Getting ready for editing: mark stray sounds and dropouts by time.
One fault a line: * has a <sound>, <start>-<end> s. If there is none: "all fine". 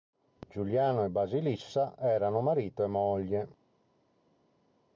all fine